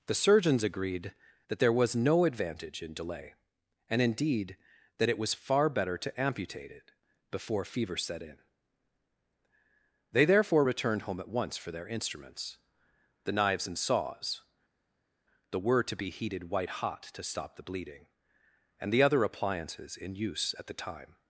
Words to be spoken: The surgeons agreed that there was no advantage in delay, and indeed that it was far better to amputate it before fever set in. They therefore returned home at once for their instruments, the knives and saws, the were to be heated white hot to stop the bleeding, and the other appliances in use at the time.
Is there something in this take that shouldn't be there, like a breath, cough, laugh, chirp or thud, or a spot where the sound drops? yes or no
no